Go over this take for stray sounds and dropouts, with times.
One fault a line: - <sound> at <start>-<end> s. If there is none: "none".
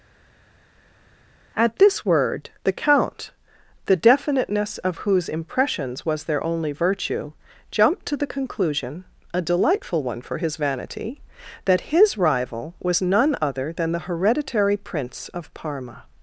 none